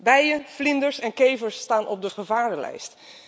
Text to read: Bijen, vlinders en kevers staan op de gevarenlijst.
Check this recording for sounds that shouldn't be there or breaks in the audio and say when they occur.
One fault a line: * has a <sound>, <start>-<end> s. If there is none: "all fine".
all fine